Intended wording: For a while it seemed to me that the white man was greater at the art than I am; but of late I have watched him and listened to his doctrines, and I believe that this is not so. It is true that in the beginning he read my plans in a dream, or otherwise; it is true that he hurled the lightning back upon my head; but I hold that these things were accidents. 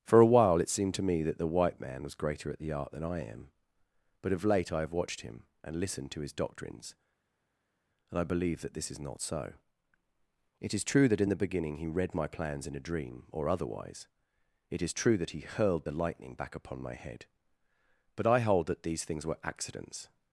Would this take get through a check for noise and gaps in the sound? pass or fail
pass